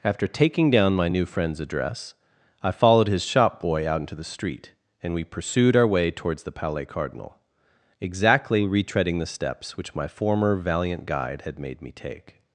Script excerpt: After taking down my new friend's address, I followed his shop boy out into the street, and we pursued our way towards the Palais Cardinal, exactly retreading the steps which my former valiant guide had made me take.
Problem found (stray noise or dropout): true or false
false